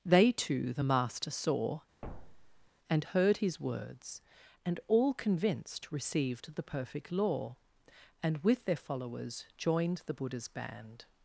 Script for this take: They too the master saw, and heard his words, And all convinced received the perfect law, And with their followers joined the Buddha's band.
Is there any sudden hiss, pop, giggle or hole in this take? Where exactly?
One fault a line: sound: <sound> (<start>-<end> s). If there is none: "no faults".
sound: thud (2.0-2.7 s)